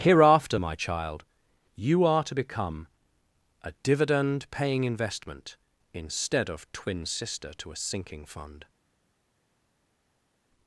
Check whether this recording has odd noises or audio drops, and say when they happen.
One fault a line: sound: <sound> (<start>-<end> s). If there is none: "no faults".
no faults